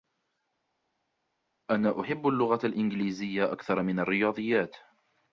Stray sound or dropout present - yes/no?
no